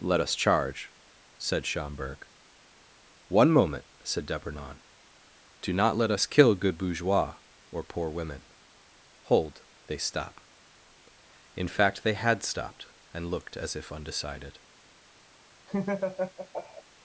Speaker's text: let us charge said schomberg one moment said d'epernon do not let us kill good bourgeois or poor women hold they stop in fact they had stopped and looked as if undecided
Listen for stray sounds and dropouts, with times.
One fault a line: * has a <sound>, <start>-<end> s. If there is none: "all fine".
* has a laugh, 15.7-16.8 s